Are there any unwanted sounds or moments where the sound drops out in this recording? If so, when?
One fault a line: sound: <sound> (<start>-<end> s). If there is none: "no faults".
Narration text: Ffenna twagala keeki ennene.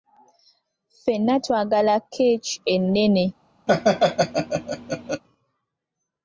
sound: laugh (3.7-5.2 s)